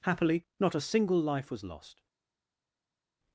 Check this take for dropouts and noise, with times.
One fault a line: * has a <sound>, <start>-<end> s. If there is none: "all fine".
all fine